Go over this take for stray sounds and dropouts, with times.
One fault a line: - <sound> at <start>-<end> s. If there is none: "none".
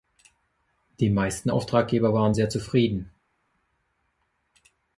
none